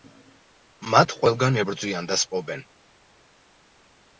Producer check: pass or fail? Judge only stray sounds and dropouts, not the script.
pass